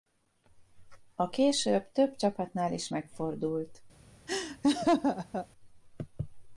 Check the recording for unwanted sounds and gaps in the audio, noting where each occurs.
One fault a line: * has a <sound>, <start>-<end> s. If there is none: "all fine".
* has a laugh, 4.3-5.5 s